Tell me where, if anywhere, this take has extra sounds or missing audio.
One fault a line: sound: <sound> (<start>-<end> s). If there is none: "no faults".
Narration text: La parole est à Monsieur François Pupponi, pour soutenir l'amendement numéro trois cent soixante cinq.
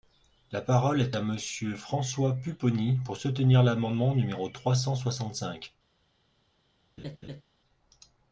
sound: laugh (7.0-7.4 s)